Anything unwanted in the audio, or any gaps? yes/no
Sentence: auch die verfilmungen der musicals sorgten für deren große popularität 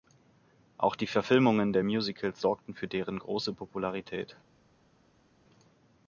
no